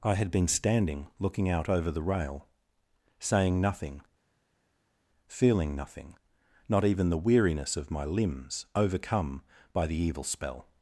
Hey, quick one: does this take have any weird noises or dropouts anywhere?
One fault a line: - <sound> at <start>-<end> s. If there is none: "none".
none